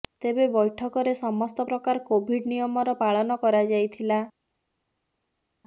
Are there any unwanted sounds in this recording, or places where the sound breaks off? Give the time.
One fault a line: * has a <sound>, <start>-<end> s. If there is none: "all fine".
all fine